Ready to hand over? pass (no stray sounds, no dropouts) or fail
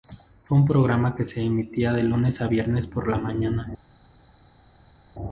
pass